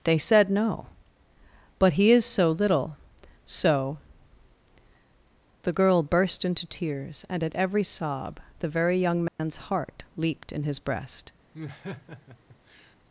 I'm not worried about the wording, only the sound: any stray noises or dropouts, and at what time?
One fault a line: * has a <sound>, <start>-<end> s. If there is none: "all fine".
* has a dropout, 9.3-9.4 s
* has a laugh, 11.5-13.0 s